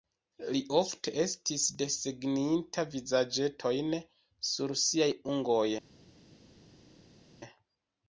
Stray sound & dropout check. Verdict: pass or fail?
pass